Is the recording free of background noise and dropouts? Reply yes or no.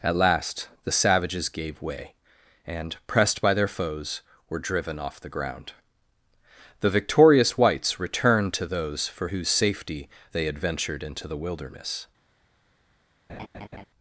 no